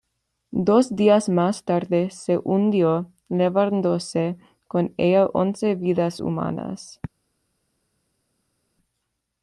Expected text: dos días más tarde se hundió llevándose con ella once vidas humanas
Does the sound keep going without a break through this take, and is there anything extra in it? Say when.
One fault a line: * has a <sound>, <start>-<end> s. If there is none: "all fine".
all fine